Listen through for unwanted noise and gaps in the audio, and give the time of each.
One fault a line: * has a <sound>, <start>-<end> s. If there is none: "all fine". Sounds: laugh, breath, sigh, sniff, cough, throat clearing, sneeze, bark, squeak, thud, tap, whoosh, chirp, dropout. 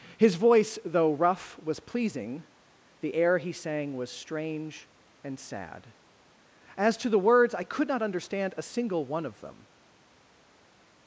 all fine